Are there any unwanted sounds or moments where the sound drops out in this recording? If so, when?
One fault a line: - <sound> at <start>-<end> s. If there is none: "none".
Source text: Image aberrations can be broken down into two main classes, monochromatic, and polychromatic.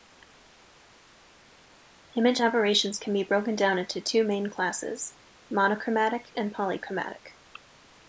none